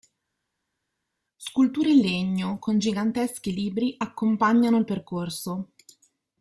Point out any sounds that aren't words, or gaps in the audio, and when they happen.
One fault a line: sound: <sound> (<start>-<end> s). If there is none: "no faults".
no faults